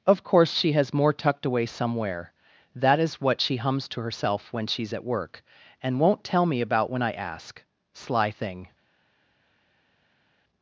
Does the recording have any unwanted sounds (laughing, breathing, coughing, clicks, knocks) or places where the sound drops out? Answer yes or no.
no